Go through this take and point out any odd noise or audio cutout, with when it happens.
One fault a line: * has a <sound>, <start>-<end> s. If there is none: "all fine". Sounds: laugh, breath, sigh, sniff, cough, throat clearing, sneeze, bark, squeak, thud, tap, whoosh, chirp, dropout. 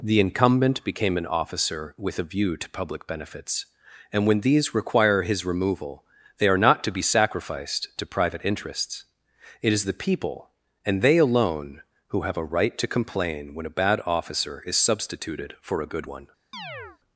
* has a chirp, 16.5-17.0 s